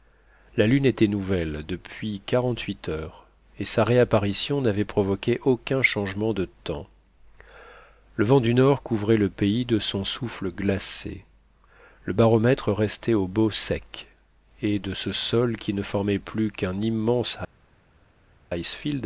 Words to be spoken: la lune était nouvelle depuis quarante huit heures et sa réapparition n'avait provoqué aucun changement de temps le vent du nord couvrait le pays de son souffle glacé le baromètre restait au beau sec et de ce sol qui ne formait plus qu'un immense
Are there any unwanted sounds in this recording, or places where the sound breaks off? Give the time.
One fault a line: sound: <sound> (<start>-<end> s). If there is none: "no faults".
no faults